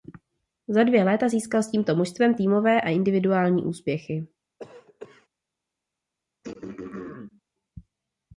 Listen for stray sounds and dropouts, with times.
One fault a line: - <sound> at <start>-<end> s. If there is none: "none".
- cough at 4.6-5.3 s
- throat clearing at 6.4-7.4 s